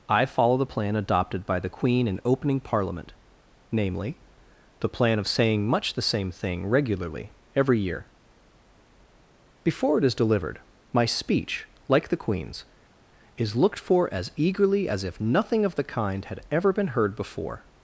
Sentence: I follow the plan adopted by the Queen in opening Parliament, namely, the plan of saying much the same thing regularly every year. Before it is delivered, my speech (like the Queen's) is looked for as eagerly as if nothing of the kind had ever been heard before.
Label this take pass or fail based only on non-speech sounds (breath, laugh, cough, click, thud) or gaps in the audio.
pass